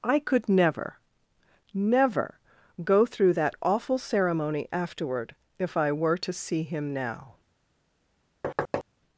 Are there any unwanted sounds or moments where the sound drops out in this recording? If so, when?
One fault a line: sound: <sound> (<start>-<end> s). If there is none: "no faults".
sound: thud (8.4-8.8 s)